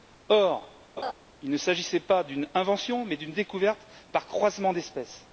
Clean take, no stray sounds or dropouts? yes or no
no